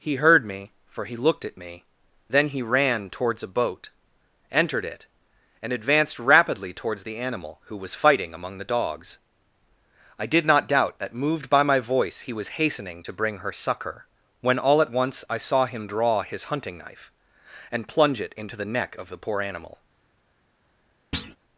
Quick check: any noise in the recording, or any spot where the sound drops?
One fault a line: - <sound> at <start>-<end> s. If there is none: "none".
- thud at 21.1-21.4 s